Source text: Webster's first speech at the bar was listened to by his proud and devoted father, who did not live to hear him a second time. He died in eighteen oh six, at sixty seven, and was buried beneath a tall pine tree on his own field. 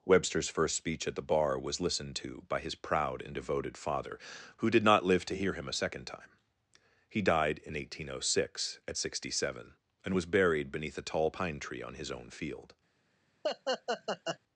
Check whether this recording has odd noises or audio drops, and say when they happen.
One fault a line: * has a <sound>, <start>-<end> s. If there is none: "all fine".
* has a laugh, 13.4-14.4 s